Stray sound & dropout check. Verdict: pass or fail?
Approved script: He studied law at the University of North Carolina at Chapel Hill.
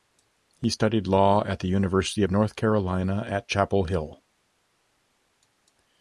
pass